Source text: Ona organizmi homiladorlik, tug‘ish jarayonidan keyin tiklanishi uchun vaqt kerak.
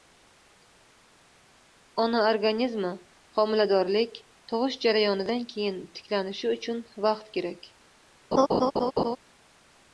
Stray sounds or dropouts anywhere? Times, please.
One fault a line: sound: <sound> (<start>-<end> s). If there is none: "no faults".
sound: laugh (8.3-9.2 s)